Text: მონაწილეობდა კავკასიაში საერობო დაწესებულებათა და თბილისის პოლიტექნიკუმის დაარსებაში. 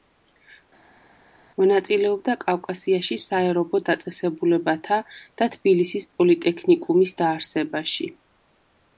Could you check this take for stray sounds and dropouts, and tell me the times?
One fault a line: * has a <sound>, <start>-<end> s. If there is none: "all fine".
all fine